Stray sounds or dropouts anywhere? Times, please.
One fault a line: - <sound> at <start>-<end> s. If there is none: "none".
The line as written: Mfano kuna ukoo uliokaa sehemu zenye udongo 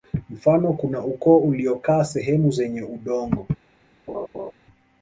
- laugh at 4.1-4.5 s